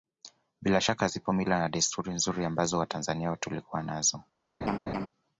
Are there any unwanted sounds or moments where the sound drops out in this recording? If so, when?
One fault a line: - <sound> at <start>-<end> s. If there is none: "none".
- laugh at 4.6-5.1 s